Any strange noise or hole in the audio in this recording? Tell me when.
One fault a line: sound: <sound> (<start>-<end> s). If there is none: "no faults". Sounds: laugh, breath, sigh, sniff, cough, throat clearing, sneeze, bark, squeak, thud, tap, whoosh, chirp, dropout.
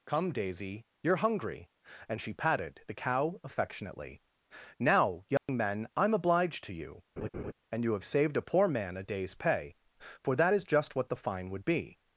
sound: dropout (5.4-5.5 s)
sound: laugh (7.2-7.5 s)